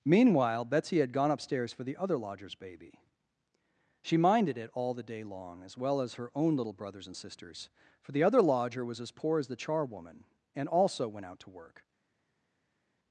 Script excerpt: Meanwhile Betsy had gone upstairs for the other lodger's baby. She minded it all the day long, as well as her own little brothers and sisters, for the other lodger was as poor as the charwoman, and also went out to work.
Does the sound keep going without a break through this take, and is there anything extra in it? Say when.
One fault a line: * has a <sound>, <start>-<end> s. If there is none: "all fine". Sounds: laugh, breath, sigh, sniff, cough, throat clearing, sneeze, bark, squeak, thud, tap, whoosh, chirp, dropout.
all fine